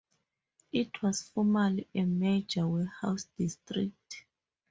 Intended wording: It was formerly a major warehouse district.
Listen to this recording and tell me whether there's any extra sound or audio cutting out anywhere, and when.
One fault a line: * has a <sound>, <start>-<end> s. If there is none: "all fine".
all fine